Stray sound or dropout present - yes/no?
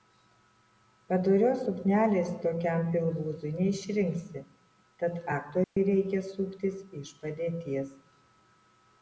yes